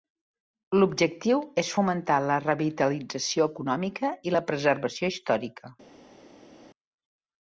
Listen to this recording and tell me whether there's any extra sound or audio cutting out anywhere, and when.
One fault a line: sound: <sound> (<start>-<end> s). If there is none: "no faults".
no faults